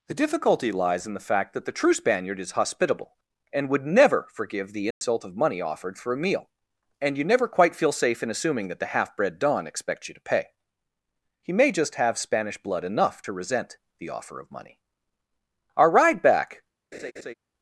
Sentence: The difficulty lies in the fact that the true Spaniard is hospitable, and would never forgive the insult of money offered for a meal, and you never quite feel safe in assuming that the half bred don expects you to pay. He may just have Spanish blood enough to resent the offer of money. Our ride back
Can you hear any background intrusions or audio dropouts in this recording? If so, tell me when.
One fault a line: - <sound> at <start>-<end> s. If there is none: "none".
- dropout at 4.9-5.0 s
- laugh at 16.9-17.3 s